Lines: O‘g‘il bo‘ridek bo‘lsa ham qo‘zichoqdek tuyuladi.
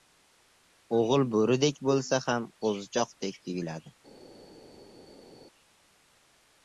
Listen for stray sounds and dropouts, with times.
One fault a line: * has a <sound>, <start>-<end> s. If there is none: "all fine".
all fine